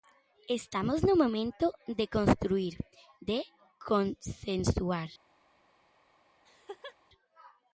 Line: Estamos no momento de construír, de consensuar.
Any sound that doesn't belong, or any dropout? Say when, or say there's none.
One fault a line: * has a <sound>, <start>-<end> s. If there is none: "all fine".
* has a laugh, 6.4-7.0 s